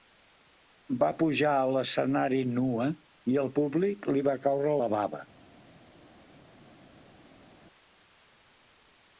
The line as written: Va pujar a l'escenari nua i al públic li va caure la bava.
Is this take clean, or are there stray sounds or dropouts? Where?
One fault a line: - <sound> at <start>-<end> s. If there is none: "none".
none